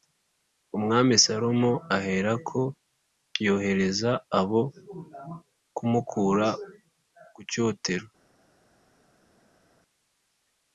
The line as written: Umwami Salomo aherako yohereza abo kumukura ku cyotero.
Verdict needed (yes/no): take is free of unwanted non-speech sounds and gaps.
yes